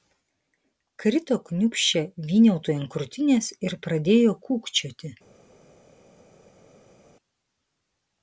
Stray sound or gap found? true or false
false